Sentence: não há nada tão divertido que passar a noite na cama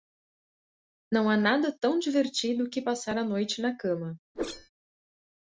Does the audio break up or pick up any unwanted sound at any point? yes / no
yes